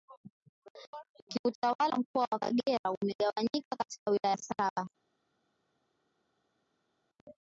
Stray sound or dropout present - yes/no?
no